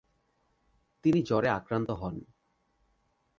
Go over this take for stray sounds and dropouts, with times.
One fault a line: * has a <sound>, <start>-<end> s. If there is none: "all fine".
all fine